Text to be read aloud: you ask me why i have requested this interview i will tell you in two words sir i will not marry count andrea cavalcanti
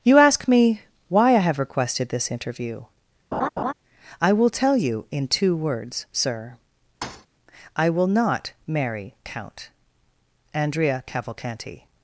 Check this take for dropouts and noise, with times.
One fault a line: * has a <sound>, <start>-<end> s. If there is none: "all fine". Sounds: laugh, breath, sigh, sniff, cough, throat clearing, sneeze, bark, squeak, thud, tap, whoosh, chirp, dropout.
* has a laugh, 3.3-3.7 s
* has a thud, 7.0-7.3 s